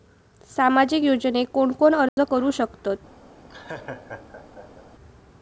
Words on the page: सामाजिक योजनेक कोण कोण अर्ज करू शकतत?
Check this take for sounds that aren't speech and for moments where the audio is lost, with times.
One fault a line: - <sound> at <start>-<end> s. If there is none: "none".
- dropout at 2.1-2.2 s
- laugh at 3.5-4.9 s